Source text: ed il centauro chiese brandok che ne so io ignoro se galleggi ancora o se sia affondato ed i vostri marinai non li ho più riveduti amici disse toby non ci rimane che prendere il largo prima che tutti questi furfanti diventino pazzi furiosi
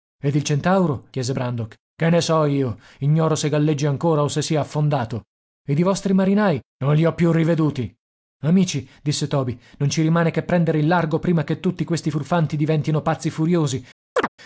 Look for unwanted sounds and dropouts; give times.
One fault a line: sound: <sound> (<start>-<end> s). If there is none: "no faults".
sound: chirp (14.2-14.3 s)